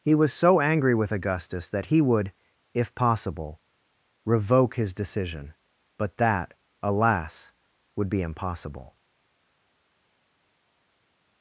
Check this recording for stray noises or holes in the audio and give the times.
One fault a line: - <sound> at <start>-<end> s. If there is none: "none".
none